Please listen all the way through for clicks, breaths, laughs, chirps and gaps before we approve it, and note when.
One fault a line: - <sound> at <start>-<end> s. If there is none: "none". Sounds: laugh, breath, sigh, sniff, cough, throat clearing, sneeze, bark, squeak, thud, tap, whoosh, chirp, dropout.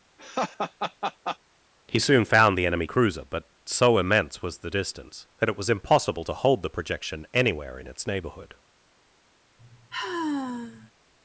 - laugh at 0.2-1.4 s
- sigh at 9.6-10.9 s